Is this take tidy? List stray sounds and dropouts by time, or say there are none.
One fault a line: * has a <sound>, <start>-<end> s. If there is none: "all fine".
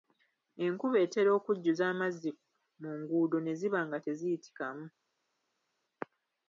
all fine